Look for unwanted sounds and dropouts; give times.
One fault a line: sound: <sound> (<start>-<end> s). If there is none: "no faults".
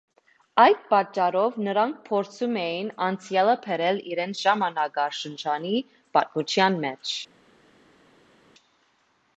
no faults